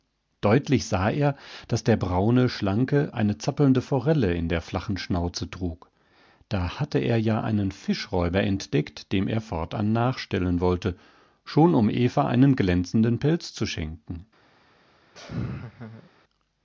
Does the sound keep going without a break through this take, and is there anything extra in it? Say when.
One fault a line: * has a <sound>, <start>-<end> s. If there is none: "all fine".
* has a laugh, 15.1-16.1 s